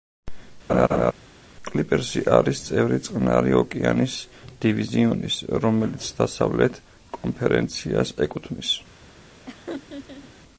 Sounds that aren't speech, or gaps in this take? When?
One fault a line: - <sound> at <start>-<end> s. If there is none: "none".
- laugh at 0.7-1.1 s
- laugh at 9.5-10.3 s